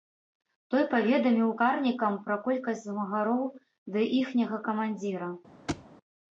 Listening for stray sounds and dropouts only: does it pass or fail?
fail